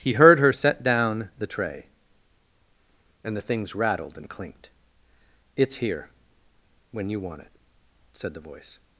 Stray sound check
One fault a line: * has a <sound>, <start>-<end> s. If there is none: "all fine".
all fine